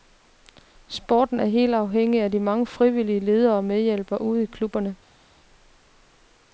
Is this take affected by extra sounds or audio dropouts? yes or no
no